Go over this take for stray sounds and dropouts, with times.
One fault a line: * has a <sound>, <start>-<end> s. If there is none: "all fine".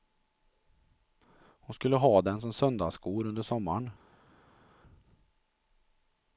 all fine